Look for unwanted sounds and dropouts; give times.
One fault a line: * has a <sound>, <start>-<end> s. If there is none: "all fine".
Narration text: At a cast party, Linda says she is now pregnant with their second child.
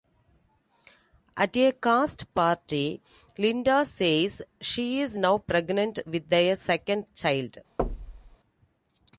* has a thud, 7.8-8.4 s